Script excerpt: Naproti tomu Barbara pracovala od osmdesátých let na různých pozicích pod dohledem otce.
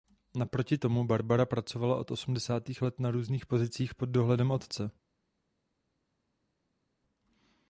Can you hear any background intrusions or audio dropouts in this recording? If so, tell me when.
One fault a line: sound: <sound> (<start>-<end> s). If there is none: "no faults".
no faults